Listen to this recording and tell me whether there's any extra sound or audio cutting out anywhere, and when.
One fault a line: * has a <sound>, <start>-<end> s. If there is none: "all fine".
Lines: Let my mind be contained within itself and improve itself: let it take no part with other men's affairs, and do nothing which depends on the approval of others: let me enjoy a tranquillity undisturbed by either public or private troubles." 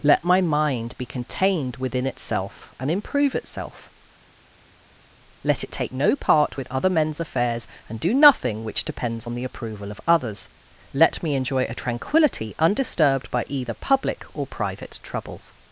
all fine